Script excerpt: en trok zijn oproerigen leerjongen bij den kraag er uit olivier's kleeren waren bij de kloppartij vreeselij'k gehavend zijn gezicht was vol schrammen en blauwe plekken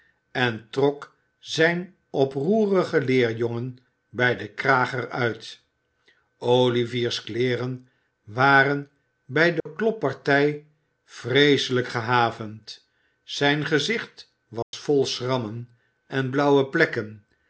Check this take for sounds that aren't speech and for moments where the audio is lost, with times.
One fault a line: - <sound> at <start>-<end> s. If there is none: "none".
- dropout at 9.6-9.7 s
- dropout at 14.6-14.7 s